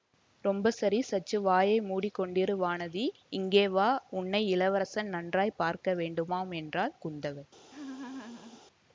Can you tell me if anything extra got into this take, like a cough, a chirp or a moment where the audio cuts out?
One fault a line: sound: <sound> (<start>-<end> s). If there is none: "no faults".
sound: laugh (7.7-8.6 s)